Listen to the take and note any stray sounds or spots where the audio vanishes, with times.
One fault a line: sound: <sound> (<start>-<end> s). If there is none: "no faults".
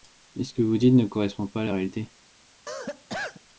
sound: cough (2.7-3.4 s)